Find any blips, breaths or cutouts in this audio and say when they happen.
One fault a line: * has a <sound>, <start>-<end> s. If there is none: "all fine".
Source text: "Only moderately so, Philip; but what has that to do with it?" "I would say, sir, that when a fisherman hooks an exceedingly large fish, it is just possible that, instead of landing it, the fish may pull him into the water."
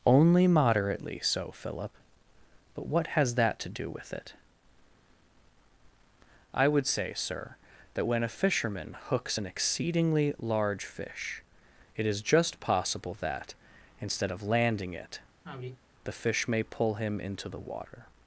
* has a sigh, 15.4-15.8 s